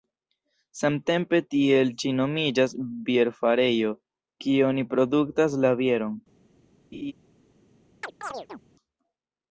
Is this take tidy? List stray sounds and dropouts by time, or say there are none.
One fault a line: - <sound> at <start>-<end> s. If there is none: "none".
- laugh at 6.9-7.1 s
- chirp at 8.0-8.6 s